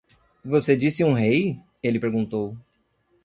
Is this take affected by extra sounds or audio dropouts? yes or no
no